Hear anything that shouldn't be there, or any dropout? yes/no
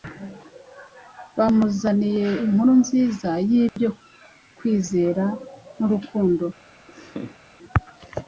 yes